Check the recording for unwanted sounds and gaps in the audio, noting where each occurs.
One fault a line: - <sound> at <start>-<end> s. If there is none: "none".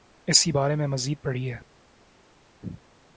none